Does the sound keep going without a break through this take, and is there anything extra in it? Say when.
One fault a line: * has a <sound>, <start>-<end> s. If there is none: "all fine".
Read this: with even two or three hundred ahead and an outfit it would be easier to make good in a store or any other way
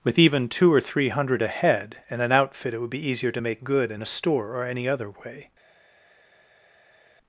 all fine